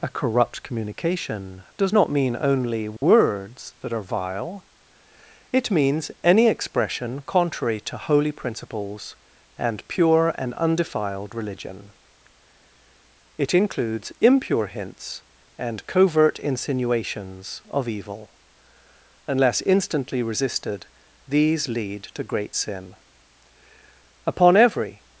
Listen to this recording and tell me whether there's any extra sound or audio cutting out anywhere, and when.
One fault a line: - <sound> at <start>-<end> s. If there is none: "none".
- dropout at 3.0-3.0 s